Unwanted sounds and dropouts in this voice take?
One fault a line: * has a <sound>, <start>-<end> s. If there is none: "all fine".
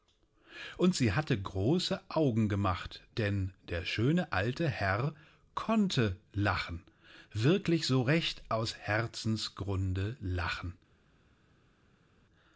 all fine